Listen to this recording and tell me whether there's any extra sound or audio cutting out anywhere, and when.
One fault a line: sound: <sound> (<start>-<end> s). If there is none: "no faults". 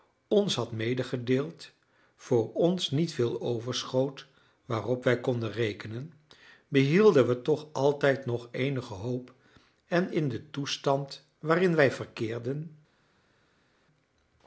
no faults